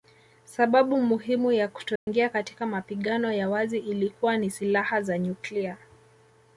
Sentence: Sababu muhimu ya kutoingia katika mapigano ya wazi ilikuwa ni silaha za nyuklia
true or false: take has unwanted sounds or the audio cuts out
true